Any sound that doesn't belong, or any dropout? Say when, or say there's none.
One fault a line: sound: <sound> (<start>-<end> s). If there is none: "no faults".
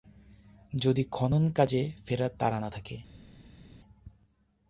no faults